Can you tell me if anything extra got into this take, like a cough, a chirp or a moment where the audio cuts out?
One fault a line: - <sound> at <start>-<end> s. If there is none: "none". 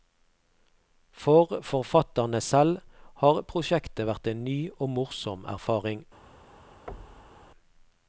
- thud at 6.9-7.5 s